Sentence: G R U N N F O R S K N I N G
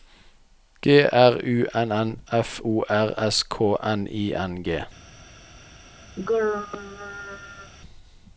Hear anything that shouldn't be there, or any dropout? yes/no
yes